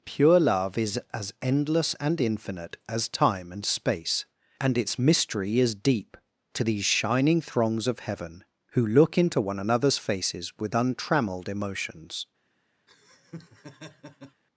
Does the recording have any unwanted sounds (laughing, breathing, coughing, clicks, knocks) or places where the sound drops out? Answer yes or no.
yes